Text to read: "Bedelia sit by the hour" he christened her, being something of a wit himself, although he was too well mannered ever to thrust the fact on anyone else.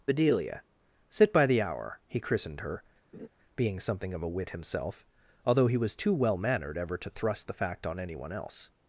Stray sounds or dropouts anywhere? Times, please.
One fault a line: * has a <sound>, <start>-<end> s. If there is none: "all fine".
* has a laugh, 3.1-3.3 s